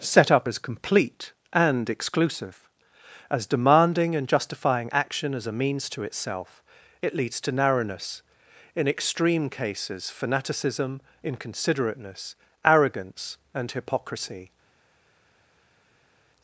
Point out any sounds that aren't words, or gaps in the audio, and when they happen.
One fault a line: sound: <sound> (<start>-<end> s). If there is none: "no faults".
no faults